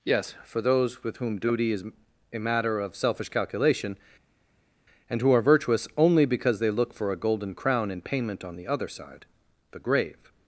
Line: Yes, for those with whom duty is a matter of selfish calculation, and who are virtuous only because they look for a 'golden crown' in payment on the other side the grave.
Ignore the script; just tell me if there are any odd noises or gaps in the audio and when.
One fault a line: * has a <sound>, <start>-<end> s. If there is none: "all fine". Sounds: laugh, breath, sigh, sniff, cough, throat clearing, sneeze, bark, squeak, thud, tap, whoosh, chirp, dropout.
all fine